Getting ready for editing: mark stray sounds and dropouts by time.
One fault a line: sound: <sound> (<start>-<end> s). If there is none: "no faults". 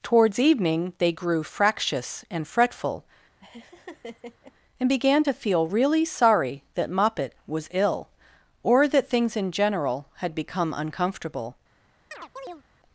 sound: laugh (3.4-4.5 s)
sound: chirp (12.1-12.6 s)